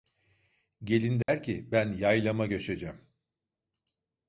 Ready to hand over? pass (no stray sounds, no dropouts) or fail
fail